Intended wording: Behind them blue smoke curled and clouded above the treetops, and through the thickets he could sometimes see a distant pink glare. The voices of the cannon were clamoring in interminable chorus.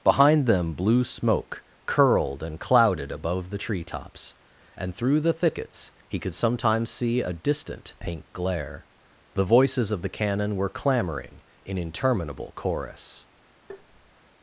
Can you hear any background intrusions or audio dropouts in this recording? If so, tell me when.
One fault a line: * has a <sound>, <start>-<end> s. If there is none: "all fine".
* has a tap, 13.7-14.2 s